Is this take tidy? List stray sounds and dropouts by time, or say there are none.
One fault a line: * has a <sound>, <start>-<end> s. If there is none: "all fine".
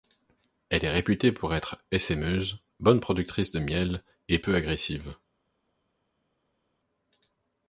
all fine